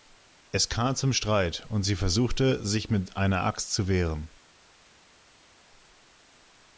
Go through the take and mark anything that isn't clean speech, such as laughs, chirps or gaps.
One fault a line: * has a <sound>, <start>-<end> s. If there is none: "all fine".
all fine